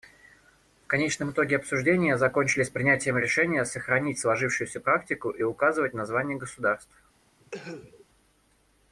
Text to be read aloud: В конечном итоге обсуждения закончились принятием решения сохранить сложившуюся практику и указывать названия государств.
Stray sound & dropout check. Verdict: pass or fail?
fail